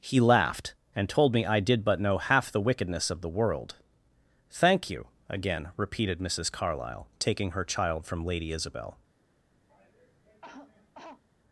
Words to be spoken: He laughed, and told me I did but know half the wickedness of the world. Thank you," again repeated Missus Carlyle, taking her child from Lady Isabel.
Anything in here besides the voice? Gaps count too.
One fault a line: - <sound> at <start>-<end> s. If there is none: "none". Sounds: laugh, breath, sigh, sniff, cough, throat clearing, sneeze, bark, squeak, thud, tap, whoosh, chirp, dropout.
- cough at 9.7-11.2 s